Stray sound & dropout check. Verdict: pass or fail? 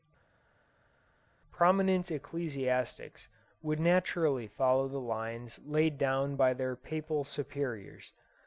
pass